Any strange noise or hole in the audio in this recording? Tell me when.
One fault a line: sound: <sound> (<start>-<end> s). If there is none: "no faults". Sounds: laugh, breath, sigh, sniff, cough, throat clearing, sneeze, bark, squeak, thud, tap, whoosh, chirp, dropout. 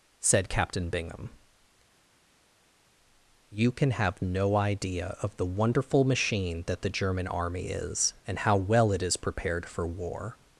no faults